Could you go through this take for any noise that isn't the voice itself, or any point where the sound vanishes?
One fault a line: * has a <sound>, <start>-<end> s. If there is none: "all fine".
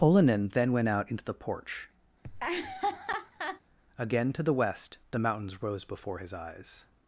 * has a laugh, 2.2-3.6 s